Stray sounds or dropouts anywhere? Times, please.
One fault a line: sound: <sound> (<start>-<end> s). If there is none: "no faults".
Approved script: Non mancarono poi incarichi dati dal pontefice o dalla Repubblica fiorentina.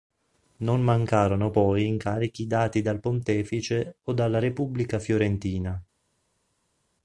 no faults